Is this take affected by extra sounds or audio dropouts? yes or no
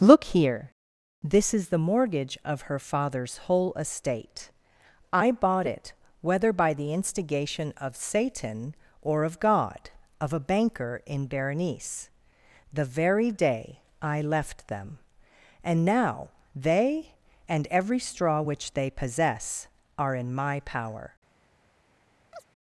yes